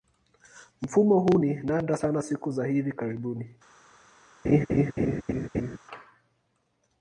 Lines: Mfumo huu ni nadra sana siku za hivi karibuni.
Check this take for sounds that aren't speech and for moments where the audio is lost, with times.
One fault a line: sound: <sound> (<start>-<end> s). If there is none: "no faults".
sound: laugh (4.4-5.8 s)